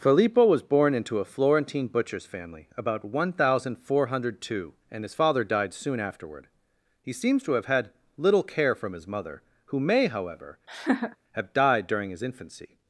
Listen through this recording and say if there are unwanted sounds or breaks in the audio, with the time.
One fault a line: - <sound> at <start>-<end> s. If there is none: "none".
- laugh at 10.7-11.2 s